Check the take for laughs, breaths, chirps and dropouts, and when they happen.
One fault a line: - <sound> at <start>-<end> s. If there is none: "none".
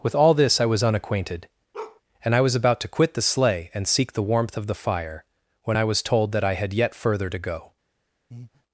- bark at 1.7-2.0 s
- breath at 8.3-8.6 s